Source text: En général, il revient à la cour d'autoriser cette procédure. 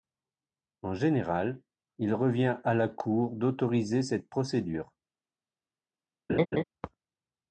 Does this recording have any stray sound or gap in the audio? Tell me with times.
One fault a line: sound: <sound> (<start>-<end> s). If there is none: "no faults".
sound: laugh (6.3-6.6 s)